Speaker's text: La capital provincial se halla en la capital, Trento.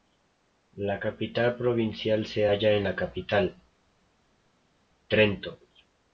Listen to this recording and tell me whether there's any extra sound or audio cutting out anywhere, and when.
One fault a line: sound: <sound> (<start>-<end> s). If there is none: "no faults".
no faults